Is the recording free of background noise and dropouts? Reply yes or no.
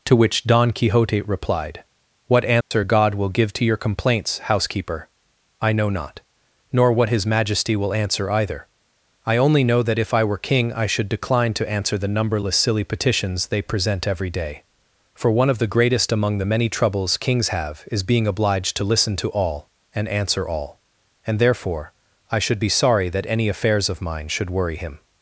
no